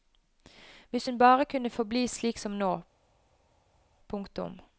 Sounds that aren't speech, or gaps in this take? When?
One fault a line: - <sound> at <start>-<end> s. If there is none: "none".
none